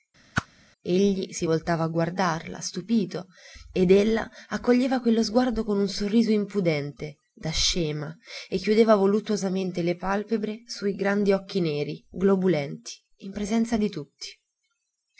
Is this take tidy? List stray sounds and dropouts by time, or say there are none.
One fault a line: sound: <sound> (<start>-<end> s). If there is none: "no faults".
sound: whoosh (0.3-0.5 s)